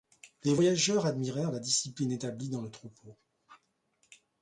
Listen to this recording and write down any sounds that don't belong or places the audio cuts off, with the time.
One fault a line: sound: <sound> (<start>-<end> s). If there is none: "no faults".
no faults